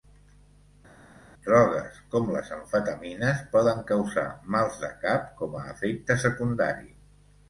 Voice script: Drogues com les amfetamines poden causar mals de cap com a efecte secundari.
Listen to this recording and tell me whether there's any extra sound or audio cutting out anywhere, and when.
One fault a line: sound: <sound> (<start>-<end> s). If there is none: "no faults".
no faults